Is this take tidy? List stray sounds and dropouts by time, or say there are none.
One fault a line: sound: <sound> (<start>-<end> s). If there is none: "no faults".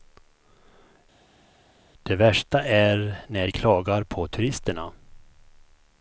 no faults